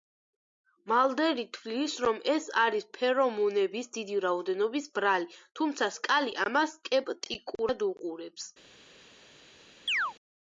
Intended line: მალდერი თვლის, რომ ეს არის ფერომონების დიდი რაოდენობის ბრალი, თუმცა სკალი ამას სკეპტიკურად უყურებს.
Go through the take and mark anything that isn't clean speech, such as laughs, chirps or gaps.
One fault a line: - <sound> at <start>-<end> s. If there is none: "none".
- chirp at 9.9-10.1 s